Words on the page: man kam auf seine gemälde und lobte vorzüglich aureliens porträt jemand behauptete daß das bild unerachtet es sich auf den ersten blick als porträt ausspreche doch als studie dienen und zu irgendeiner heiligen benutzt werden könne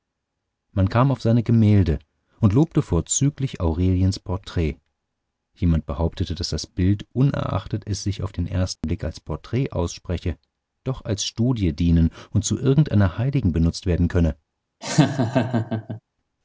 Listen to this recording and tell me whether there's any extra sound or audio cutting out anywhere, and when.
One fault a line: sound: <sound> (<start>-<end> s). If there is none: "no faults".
sound: dropout (8.8-8.8 s)
sound: laugh (14.8-16.0 s)